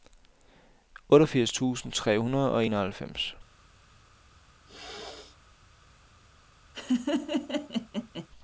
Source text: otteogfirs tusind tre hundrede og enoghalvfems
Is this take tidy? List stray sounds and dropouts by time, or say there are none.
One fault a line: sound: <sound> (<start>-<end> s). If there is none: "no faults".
sound: throat clearing (4.7-5.4 s)
sound: laugh (6.7-8.3 s)